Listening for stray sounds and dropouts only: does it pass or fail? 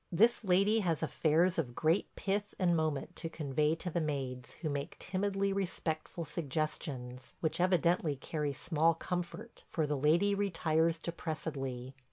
pass